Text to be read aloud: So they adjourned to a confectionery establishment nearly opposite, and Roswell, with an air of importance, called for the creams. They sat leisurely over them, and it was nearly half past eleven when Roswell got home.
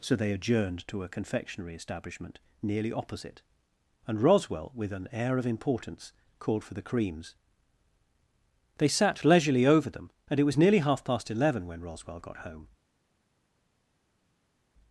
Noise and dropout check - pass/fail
pass